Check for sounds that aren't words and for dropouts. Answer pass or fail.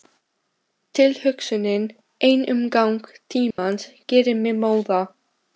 fail